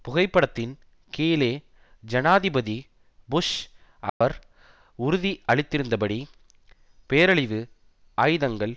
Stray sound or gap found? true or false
true